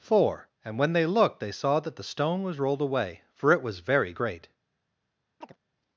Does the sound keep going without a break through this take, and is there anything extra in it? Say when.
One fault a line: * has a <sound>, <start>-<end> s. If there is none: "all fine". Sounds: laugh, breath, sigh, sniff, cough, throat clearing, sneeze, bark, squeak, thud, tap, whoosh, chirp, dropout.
* has a chirp, 5.4-5.6 s